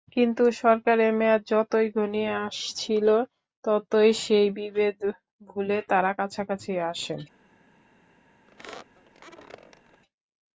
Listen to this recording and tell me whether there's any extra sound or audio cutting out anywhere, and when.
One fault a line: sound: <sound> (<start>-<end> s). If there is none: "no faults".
sound: squeak (8.5-10.0 s)